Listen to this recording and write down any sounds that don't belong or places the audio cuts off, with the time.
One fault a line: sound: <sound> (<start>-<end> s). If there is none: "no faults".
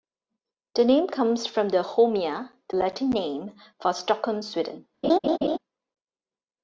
sound: laugh (5.0-5.6 s)